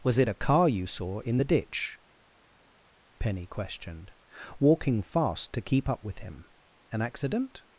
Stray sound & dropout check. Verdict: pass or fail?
pass